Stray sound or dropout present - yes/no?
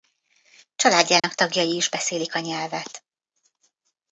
yes